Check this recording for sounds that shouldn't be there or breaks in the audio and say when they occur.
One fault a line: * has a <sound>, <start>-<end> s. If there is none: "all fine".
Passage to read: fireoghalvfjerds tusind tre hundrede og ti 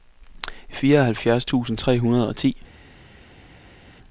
all fine